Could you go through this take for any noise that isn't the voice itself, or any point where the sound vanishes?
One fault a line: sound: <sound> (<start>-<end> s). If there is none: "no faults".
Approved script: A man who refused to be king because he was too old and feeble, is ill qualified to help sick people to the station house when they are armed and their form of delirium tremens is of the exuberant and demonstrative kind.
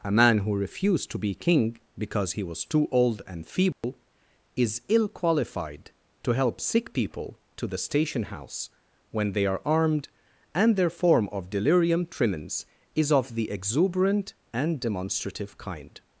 sound: dropout (3.7-3.8 s)